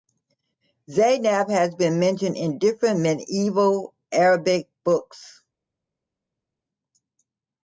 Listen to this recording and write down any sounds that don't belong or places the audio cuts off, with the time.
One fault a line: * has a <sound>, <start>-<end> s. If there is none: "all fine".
all fine